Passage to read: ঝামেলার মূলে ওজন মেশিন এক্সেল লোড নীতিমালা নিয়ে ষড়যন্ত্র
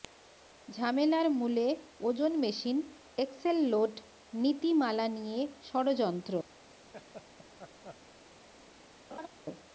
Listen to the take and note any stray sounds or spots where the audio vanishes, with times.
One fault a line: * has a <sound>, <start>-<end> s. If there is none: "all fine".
* has a laugh, 6.9-8.0 s
* has a laugh, 9.1-9.3 s